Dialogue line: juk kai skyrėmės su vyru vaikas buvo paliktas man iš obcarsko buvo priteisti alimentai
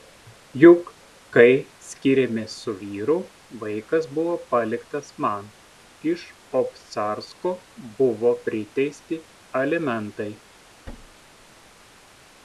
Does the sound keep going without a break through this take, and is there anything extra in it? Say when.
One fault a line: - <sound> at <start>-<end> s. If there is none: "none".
- thud at 10.9-11.8 s